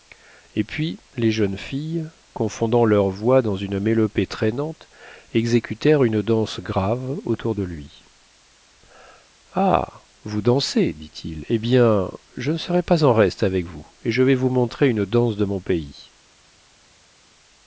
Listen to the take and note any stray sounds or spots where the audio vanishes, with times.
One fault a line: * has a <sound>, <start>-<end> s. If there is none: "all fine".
all fine